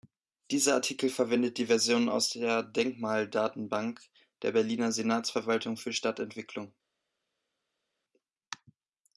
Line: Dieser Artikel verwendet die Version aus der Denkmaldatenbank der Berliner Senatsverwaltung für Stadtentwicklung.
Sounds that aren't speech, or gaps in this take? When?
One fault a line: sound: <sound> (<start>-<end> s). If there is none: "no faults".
no faults